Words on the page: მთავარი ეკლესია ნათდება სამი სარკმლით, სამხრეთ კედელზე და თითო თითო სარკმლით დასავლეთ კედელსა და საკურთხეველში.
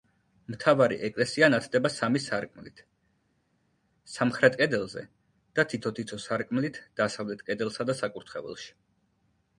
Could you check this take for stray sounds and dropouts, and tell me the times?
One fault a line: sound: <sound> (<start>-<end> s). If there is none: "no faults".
no faults